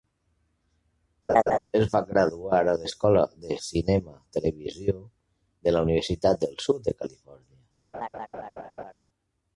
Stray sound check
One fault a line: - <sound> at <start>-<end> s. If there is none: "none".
- laugh at 1.3-1.6 s
- laugh at 7.9-8.9 s